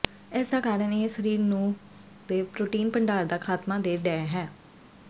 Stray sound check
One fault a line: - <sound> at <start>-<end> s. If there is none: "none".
none